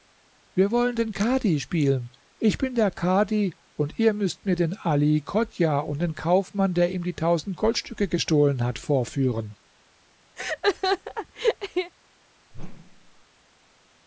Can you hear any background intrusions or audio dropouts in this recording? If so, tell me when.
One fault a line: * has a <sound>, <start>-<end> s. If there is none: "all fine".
* has a laugh, 10.4-11.9 s
* has a whoosh, 12.5-13.3 s